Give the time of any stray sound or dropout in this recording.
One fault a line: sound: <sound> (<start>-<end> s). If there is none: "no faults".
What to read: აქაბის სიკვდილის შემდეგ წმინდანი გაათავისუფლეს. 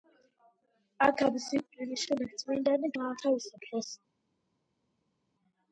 no faults